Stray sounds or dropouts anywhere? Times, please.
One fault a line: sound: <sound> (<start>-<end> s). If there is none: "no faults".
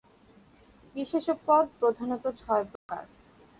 sound: dropout (2.8-2.9 s)